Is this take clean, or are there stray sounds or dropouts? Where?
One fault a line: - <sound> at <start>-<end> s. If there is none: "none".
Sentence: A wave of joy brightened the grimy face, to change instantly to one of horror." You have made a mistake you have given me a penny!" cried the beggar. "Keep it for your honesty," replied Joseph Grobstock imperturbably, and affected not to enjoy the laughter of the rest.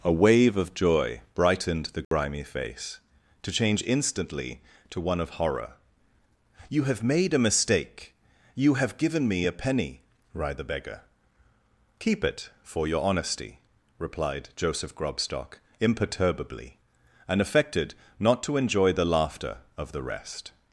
- dropout at 2.0-2.1 s